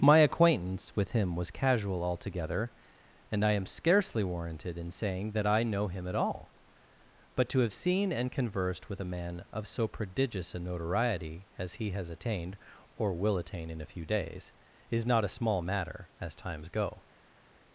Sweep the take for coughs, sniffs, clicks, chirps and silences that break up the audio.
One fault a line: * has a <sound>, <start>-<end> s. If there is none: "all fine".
all fine